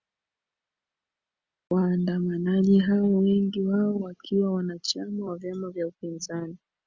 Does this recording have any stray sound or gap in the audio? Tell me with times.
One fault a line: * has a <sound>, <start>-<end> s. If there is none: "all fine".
all fine